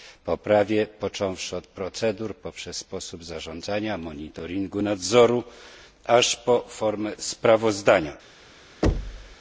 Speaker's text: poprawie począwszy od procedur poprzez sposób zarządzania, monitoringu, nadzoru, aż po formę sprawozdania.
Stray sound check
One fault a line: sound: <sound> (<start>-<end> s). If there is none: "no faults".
sound: thud (8.8-9.4 s)